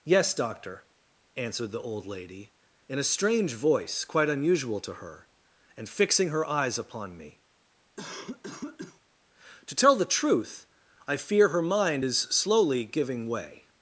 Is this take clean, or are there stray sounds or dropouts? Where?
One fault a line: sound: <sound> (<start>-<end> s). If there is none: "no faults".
sound: cough (8.0-9.0 s)